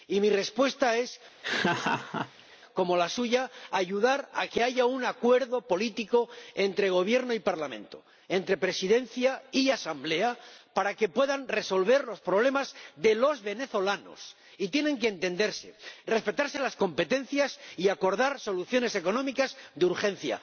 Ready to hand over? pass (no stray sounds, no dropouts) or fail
fail